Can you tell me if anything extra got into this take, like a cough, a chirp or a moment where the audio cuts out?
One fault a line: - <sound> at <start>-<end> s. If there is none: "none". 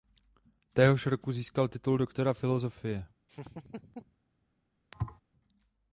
- laugh at 3.3-4.2 s
- thud at 4.9-5.2 s